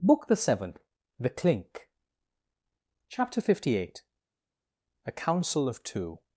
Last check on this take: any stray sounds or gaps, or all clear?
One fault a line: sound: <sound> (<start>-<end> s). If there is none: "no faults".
no faults